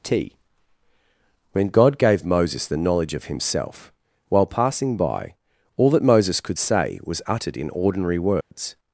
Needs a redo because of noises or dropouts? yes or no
yes